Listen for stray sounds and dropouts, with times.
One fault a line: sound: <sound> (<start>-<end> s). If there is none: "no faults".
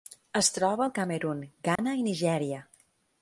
sound: dropout (1.8-1.8 s)